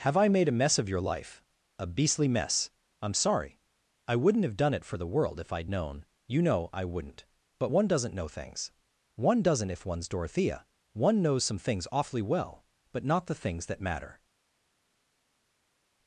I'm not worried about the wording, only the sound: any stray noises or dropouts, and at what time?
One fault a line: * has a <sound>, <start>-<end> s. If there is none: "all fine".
all fine